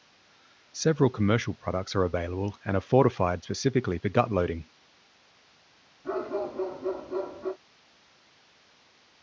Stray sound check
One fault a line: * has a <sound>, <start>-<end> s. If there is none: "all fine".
* has a bark, 6.0-7.6 s